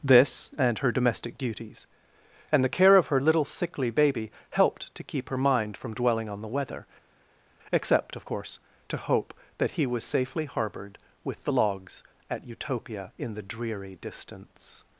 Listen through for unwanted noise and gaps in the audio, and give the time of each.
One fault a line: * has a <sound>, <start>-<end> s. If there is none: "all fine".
all fine